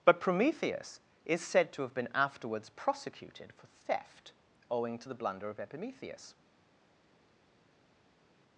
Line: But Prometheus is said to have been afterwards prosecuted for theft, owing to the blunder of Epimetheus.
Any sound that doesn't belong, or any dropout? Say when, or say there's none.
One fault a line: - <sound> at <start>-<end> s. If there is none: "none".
none